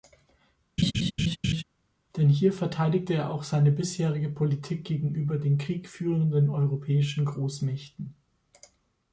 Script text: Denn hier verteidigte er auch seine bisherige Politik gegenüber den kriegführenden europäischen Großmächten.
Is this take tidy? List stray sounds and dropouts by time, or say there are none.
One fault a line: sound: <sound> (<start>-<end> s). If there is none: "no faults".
sound: laugh (0.8-1.6 s)